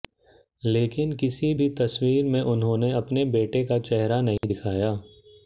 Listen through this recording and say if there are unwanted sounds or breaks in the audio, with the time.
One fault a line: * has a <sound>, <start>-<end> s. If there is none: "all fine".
* has a dropout, 4.4-4.4 s